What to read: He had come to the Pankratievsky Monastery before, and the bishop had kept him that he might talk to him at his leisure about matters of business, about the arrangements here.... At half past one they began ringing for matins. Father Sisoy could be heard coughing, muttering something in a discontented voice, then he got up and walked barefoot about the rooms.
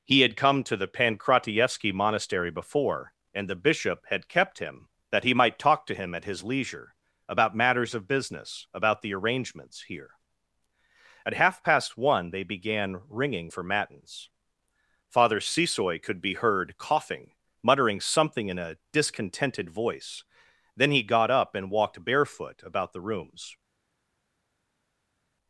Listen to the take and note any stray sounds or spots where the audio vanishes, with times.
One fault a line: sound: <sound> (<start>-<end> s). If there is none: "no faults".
no faults